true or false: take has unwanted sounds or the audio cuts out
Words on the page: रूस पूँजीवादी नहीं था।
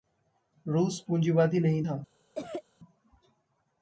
true